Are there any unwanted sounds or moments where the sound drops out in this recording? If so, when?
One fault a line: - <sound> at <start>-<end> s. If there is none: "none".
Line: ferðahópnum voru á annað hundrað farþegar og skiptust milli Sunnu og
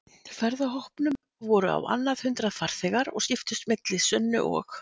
none